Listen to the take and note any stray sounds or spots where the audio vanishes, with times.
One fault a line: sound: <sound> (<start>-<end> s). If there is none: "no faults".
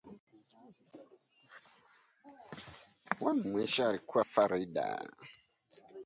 no faults